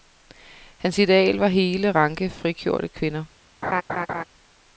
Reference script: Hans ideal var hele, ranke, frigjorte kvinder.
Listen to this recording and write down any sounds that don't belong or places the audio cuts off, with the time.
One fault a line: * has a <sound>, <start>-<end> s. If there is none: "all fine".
* has a laugh, 3.6-4.2 s